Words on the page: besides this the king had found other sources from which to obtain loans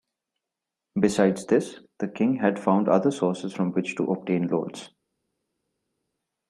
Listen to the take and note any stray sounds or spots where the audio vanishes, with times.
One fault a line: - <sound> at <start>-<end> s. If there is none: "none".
none